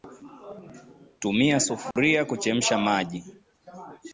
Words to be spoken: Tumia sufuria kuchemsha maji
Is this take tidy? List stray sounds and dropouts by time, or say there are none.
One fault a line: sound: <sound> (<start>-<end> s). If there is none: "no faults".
sound: dropout (1.9-2.0 s)